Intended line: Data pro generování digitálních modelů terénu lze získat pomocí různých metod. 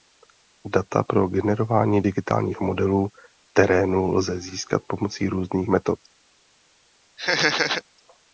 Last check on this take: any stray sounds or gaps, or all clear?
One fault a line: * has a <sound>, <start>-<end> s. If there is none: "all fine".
* has a laugh, 7.2-7.8 s